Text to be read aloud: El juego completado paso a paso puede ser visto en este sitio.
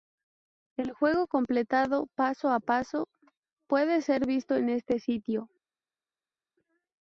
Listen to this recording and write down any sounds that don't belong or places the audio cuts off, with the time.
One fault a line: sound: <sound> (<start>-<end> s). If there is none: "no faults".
no faults